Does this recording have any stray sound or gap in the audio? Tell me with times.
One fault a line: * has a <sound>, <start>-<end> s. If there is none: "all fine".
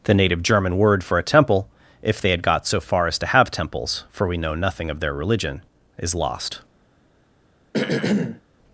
* has a throat clearing, 7.7-8.4 s